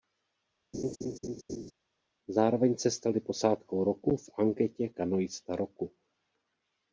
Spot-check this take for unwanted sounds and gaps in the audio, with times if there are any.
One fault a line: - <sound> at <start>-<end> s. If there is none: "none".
- laugh at 0.7-1.7 s